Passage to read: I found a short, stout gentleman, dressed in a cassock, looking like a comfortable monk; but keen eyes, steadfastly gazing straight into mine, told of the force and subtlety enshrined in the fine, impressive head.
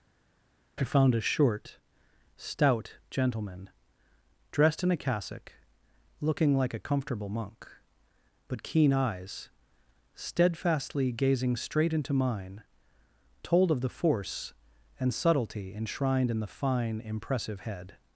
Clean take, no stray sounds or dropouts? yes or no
yes